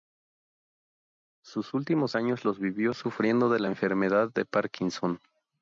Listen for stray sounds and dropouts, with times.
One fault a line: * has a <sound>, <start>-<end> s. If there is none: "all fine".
all fine